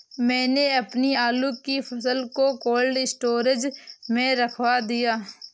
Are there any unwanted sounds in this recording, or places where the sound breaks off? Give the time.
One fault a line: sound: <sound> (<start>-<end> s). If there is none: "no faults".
no faults